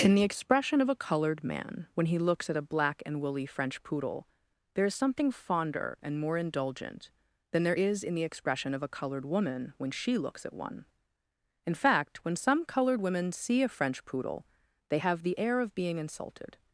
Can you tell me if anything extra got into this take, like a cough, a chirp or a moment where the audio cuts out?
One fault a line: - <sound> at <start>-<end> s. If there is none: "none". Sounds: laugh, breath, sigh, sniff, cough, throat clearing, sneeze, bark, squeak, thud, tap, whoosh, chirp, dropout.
none